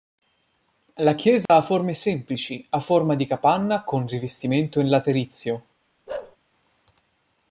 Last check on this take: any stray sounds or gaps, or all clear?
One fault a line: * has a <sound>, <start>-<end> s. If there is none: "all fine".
* has a dropout, 1.5-1.5 s
* has a bark, 6.1-6.4 s